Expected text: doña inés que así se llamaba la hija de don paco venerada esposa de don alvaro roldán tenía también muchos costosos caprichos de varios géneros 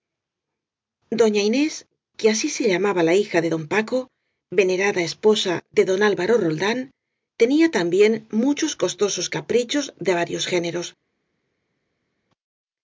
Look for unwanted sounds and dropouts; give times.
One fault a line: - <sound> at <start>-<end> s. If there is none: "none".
none